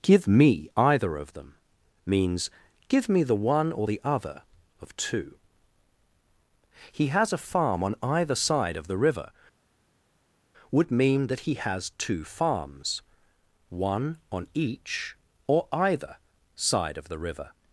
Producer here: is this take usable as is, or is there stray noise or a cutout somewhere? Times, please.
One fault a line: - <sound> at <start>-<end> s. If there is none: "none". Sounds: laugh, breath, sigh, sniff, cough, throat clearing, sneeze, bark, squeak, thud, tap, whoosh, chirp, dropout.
none